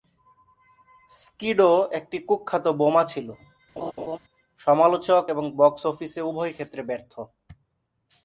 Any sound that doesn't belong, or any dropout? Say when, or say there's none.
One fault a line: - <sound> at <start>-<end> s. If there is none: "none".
- laugh at 3.8-4.2 s